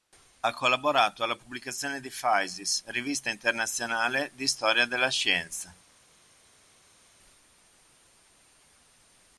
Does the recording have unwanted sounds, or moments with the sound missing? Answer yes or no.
no